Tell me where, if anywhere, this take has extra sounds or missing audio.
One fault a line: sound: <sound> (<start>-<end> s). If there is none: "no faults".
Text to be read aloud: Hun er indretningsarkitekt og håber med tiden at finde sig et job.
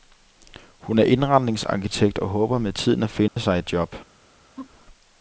sound: dropout (3.3-3.4 s)
sound: laugh (4.6-4.9 s)